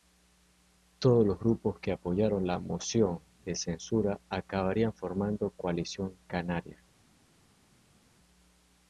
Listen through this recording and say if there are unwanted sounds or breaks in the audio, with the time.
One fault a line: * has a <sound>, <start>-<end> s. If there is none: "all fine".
all fine